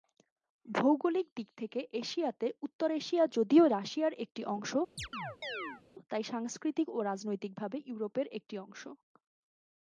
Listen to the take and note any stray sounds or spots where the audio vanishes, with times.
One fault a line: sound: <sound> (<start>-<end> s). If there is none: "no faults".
sound: chirp (5.0-5.8 s)